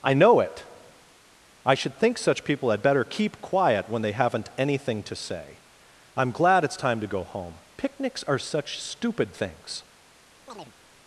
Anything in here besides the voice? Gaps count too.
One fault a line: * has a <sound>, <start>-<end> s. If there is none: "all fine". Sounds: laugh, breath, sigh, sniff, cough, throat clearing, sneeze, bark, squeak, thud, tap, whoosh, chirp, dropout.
* has a chirp, 10.5-10.8 s